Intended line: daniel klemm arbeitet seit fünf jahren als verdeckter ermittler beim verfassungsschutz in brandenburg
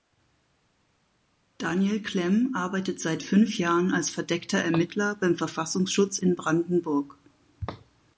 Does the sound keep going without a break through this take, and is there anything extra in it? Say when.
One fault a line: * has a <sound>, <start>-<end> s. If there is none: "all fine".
all fine